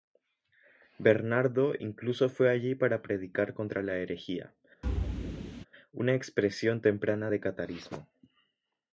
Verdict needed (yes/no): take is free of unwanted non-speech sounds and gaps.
no